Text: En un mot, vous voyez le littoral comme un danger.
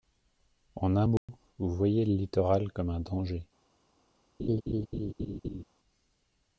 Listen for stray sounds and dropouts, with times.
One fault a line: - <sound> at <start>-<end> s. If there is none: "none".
- dropout at 1.2-1.3 s
- laugh at 4.4-5.6 s